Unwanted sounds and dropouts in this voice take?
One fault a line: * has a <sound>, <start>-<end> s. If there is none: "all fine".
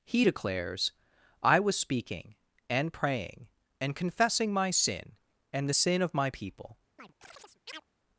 * has a chirp, 7.0-7.8 s